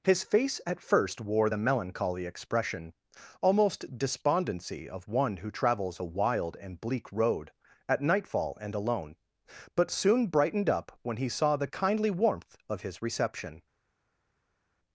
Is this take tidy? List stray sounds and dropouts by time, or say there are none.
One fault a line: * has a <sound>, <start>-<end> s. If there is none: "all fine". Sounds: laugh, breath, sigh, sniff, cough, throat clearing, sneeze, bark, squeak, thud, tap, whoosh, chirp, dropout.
all fine